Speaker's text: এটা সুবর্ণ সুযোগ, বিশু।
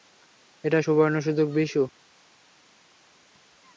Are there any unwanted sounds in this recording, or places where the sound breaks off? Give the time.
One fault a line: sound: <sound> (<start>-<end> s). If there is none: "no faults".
no faults